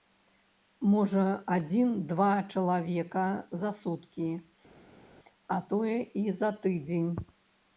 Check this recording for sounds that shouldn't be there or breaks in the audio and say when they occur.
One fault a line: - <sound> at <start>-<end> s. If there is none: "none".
none